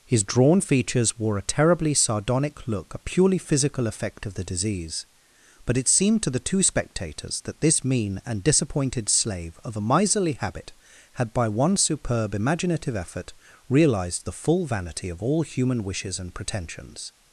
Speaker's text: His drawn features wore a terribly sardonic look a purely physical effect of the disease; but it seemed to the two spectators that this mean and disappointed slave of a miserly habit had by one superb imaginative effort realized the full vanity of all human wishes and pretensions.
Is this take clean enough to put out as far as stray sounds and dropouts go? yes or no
yes